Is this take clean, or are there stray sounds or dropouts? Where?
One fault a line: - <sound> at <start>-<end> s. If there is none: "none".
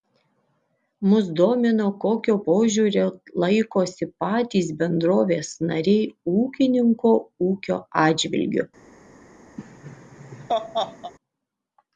- laugh at 9.6-11.1 s